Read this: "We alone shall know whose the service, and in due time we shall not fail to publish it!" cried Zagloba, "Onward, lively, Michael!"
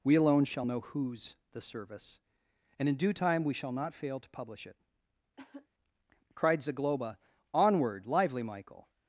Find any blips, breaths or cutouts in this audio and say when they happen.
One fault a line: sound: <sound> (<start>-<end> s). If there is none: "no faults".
sound: cough (5.4-5.7 s)